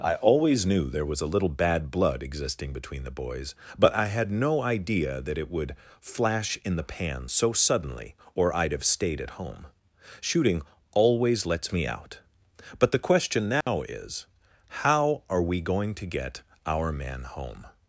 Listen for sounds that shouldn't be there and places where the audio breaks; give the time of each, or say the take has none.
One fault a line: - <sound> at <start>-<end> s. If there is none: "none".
- dropout at 13.6-13.7 s